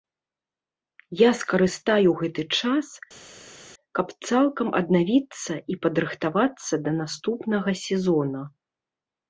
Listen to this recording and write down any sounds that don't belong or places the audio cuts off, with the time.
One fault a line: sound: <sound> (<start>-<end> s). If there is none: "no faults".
no faults